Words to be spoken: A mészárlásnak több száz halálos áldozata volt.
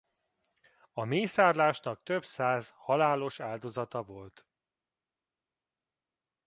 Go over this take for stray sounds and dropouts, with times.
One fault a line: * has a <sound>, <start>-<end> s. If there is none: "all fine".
all fine